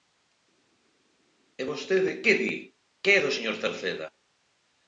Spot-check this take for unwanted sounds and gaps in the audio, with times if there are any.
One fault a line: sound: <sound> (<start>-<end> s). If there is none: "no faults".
no faults